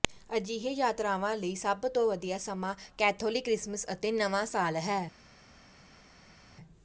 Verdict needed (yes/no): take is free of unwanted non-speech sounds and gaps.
yes